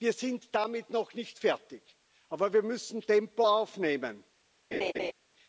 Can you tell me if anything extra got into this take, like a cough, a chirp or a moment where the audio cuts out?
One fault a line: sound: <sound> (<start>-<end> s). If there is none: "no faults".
sound: laugh (4.7-5.1 s)